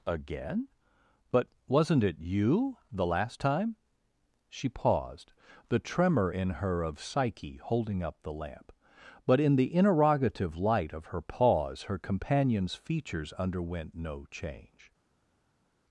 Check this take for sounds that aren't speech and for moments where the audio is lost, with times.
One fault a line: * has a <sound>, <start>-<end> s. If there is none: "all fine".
all fine